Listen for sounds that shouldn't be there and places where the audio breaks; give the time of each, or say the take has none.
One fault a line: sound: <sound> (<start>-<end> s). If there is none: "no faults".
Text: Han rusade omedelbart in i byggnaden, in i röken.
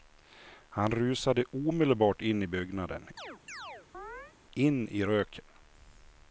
sound: chirp (3.2-4.3 s)